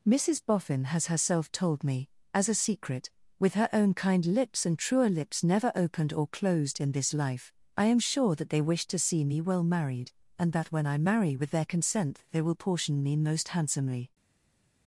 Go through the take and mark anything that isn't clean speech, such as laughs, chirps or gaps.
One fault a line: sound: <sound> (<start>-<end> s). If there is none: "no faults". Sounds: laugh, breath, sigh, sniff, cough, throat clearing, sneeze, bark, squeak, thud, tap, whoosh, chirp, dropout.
no faults